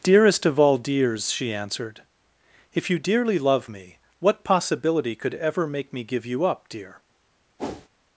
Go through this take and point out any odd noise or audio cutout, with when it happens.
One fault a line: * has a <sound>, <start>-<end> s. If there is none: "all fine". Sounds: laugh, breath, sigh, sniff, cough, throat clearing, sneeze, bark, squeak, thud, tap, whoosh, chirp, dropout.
* has a whoosh, 7.6-7.9 s